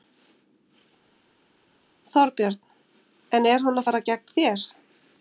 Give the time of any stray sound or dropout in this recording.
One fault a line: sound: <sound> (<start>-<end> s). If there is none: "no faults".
no faults